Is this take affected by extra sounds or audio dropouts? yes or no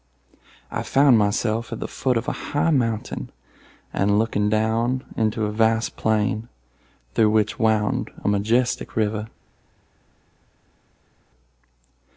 no